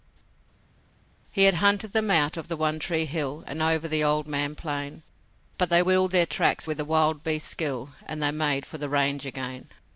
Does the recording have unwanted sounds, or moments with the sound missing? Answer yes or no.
no